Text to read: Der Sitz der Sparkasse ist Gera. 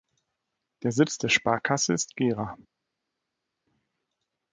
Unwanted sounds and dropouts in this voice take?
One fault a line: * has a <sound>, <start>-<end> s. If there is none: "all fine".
all fine